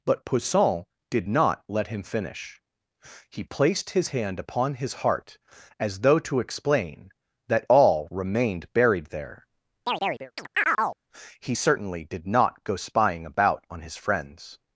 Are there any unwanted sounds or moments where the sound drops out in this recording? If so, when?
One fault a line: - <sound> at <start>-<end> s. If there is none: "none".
- chirp at 9.8-11.0 s